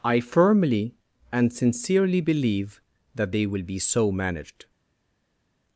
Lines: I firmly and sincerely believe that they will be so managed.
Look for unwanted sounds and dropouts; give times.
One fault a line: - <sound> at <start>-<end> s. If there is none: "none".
none